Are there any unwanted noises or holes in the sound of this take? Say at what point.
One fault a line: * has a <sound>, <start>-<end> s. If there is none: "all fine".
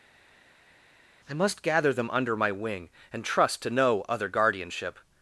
all fine